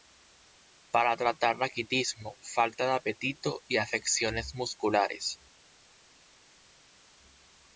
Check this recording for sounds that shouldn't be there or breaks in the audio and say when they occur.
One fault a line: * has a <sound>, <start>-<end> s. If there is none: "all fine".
all fine